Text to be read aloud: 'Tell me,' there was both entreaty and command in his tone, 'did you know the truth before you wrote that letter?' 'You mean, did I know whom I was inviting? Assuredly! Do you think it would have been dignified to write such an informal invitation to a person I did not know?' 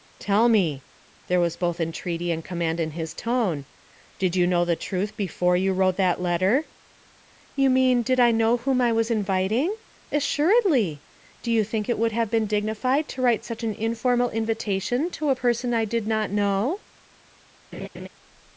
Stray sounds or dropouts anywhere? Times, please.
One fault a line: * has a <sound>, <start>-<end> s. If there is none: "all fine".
* has a laugh, 17.7-18.1 s